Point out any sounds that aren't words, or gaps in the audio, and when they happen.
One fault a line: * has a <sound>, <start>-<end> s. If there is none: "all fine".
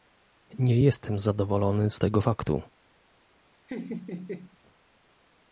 * has a laugh, 3.7-4.6 s